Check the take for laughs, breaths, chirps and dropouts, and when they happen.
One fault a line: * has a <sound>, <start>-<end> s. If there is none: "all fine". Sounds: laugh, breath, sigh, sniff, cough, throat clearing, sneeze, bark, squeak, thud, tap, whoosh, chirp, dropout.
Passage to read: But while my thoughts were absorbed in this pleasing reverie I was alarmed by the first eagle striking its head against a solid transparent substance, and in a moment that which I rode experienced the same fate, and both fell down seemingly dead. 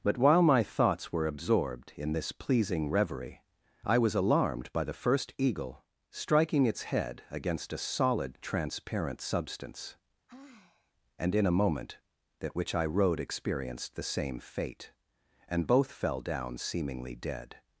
* has a sigh, 10.3-10.9 s